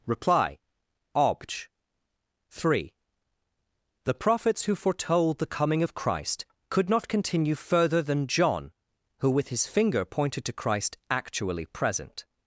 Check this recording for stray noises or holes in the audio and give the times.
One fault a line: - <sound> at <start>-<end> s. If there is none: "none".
none